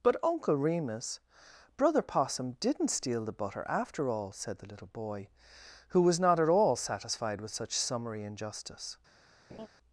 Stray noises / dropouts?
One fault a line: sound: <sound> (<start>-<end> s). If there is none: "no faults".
sound: laugh (9.5-9.7 s)